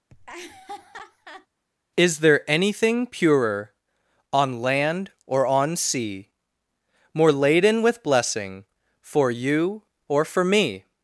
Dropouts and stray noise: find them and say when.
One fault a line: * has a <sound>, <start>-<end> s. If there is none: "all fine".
* has a laugh, 0.1-1.5 s